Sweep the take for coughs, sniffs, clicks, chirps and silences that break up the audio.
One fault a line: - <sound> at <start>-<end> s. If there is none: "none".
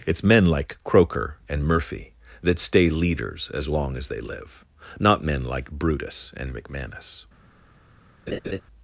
- laugh at 8.3-8.6 s